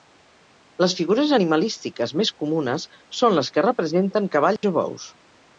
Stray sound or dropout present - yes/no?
yes